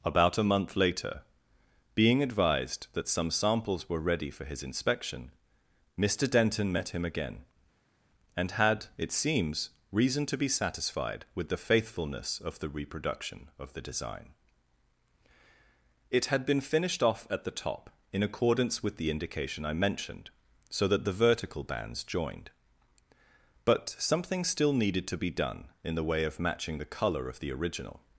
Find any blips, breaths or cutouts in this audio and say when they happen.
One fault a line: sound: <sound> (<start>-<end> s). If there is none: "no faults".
no faults